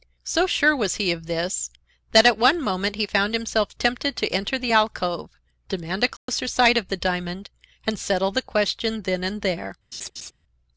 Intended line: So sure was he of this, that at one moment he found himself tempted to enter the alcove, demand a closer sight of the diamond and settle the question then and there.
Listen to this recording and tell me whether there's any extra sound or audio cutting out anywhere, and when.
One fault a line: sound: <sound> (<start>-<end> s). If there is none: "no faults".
sound: dropout (6.2-6.3 s)
sound: laugh (9.9-10.3 s)